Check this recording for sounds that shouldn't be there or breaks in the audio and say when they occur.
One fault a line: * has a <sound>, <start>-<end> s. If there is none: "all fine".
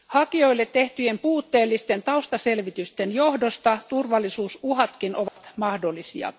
* has a dropout, 5.3-5.4 s